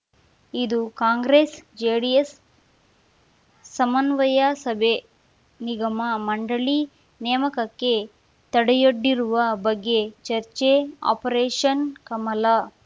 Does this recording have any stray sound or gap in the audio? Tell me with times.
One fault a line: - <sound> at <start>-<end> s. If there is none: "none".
none